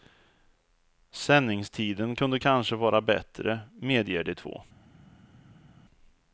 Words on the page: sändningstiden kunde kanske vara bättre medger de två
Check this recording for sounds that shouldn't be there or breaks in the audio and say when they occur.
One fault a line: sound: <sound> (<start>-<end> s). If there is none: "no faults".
no faults